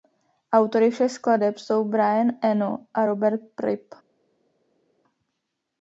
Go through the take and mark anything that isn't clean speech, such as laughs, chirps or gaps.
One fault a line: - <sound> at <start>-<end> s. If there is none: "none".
none